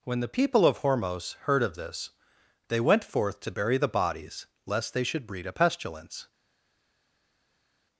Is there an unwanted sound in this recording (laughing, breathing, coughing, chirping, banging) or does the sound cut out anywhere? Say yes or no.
no